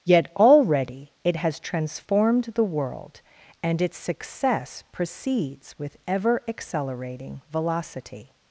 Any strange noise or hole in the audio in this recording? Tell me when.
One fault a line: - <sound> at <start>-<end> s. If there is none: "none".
none